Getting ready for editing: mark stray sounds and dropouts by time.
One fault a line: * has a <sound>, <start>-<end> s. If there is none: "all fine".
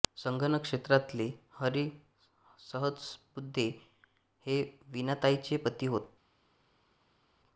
all fine